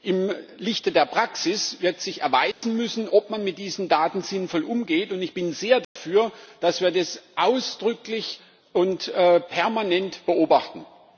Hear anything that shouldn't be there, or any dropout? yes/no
yes